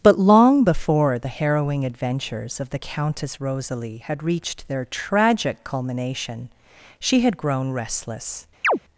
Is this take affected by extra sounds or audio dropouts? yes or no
yes